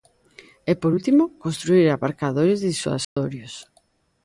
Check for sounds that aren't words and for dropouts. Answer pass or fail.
fail